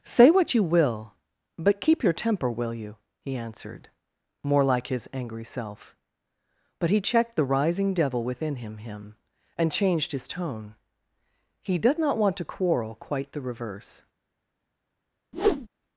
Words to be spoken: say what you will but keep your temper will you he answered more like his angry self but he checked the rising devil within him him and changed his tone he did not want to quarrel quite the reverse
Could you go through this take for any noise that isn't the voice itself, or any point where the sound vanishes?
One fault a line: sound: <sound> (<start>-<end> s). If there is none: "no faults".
sound: whoosh (15.3-15.7 s)